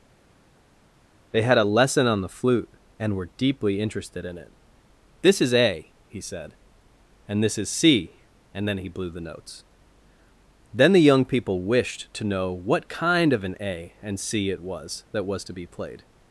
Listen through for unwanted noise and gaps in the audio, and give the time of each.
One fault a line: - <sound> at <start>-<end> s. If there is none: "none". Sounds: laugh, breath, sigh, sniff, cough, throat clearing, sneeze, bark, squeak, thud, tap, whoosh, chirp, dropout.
none